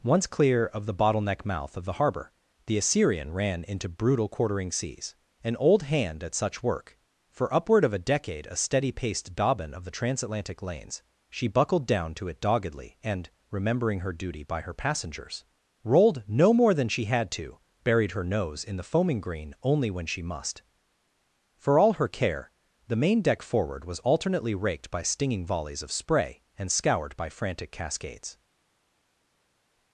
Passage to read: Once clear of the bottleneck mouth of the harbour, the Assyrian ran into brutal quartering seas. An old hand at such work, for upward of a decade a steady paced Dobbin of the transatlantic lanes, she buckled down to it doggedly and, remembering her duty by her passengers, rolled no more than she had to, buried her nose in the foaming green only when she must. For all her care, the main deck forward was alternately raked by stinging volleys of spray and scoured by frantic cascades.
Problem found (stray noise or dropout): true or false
false